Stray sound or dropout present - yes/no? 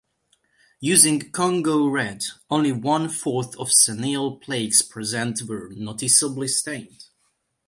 no